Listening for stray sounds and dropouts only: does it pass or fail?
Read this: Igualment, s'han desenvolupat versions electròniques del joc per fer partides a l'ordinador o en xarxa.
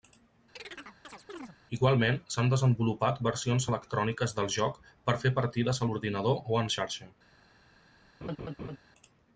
fail